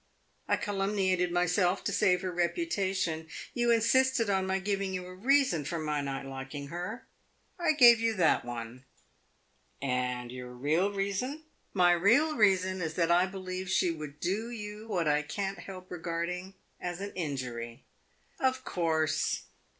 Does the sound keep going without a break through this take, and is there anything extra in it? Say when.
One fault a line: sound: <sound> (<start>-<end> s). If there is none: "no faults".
no faults